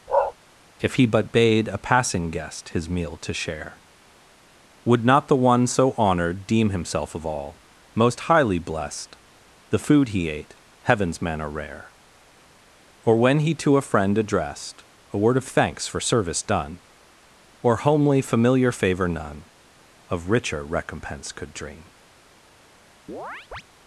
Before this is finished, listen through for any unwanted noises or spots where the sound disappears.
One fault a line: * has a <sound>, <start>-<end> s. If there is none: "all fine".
* has a bark, 0.1-0.3 s
* has a chirp, 23.1-23.6 s